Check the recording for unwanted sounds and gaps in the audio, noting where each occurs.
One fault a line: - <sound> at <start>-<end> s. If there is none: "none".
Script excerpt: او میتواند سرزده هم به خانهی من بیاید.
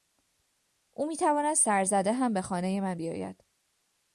none